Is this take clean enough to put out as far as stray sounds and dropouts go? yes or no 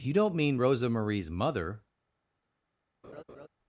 no